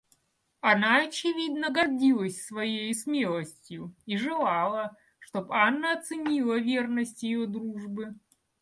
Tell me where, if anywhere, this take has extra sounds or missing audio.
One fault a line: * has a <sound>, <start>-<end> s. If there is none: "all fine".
all fine